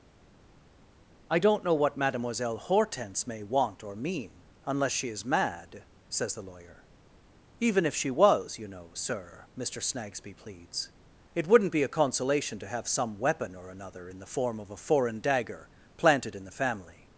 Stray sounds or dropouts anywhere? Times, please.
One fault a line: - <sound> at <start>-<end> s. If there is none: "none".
none